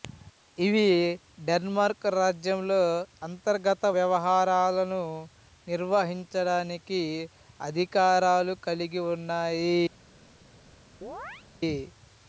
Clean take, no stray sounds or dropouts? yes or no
no